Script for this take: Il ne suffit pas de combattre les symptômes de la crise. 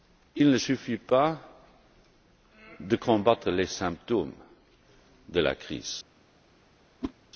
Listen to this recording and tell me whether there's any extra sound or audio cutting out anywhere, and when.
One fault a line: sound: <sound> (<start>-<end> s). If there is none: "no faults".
sound: whoosh (7.0-7.1 s)